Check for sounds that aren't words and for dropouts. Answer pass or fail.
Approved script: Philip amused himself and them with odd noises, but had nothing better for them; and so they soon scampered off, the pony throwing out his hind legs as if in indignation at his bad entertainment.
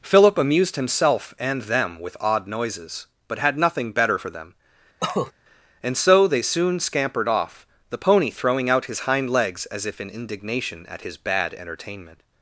fail